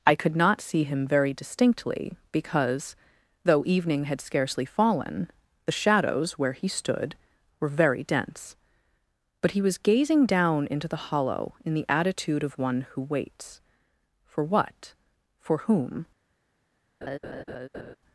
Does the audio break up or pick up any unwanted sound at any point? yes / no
yes